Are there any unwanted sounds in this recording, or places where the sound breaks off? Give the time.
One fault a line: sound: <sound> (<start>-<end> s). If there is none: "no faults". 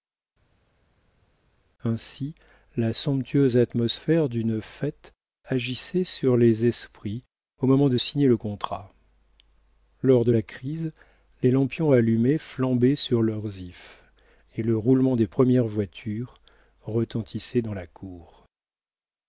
no faults